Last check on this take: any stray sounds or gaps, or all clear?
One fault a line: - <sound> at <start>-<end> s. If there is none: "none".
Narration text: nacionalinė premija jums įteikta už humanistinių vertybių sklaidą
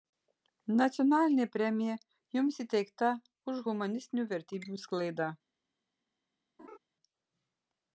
- laugh at 6.6-6.8 s